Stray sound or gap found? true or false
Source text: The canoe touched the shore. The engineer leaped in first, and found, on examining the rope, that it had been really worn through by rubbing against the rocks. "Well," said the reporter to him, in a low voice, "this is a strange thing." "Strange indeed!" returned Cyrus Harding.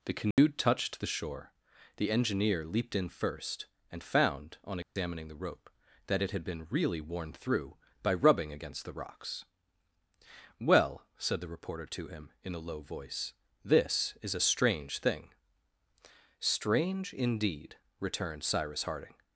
true